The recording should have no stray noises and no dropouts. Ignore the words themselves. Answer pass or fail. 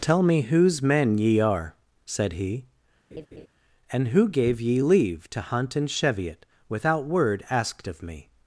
fail